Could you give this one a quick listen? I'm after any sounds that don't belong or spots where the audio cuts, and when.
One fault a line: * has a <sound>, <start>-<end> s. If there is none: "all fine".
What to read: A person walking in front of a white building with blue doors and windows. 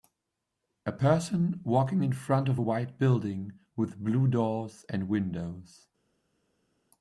all fine